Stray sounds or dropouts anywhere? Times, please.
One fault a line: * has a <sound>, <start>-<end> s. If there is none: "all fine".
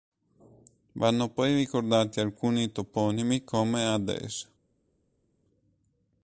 all fine